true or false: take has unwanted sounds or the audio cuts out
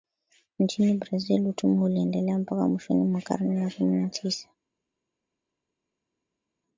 false